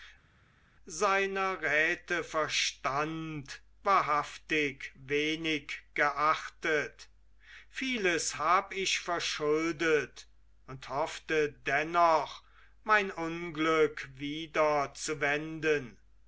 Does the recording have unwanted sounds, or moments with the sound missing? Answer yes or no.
no